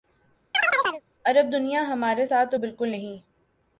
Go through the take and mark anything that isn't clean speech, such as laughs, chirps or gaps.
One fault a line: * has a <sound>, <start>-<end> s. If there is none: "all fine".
* has a chirp, 0.5-1.0 s